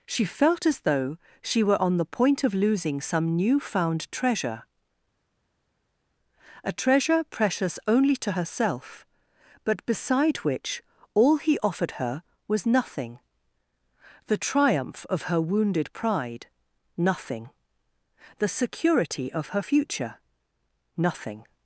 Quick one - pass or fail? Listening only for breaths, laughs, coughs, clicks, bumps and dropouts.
pass